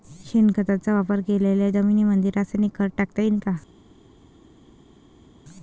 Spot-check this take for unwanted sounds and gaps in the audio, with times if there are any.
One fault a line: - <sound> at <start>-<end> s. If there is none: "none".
none